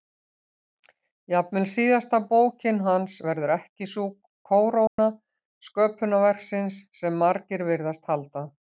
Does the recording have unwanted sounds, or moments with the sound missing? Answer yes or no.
yes